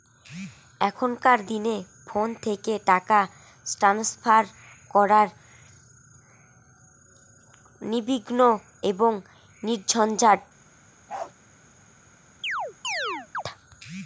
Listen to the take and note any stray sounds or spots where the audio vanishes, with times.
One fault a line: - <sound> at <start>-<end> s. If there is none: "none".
- bark at 11.1-11.3 s
- chirp at 12.4-13.4 s